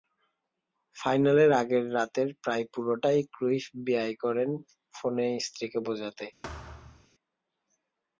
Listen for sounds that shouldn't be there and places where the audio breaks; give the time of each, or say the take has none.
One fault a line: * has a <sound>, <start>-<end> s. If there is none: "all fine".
* has a thud, 6.4-7.1 s